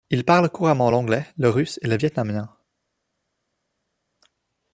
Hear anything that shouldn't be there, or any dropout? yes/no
no